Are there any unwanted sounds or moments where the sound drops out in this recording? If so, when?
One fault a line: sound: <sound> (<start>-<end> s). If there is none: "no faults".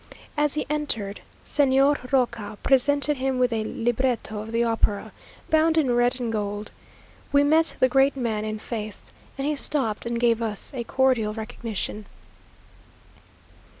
no faults